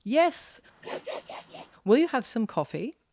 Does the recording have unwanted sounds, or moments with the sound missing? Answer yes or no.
yes